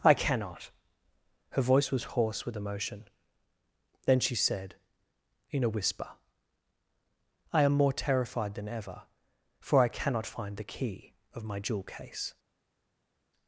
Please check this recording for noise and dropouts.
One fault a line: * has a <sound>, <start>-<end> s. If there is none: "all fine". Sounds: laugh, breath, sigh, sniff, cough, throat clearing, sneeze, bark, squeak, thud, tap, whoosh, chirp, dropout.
all fine